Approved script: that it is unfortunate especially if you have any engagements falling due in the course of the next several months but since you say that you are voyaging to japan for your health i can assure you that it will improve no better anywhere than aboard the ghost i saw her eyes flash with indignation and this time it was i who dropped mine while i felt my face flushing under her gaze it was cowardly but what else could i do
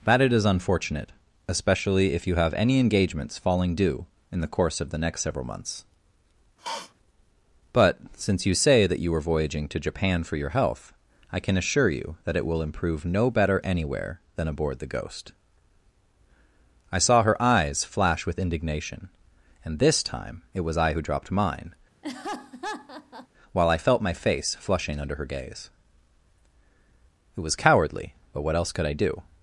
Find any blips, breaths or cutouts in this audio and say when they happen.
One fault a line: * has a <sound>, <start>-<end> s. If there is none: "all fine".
* has a sniff, 6.6-6.9 s
* has a laugh, 22.0-23.3 s